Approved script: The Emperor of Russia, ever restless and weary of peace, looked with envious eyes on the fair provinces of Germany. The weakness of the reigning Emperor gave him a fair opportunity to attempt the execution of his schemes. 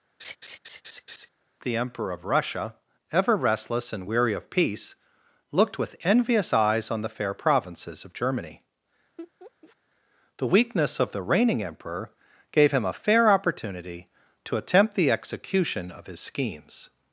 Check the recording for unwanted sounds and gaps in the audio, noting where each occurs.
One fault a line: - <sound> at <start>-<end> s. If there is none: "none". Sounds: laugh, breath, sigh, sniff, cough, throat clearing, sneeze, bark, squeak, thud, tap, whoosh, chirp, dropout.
- laugh at 0.2-1.3 s
- laugh at 9.2-9.8 s